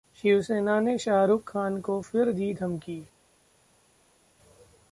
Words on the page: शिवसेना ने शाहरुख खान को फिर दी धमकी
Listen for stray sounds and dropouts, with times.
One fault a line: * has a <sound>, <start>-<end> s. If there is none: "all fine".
all fine